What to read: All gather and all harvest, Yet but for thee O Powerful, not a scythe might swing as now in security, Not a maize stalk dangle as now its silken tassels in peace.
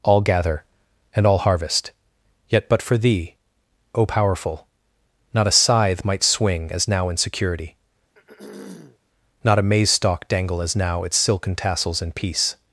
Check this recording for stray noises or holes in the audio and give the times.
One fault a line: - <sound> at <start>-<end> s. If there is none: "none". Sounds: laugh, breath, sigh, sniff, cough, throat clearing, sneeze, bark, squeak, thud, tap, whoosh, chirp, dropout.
- throat clearing at 8.1-9.0 s